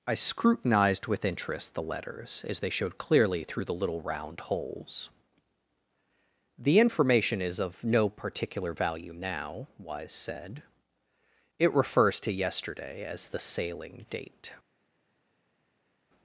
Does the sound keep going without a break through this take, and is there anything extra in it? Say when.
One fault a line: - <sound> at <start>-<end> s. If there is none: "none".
none